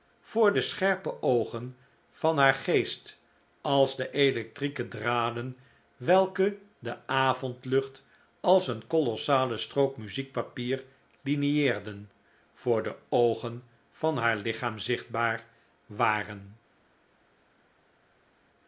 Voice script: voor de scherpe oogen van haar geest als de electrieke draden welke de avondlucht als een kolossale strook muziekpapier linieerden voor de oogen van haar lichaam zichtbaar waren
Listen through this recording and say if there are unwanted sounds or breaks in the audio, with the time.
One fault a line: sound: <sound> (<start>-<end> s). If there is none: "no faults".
no faults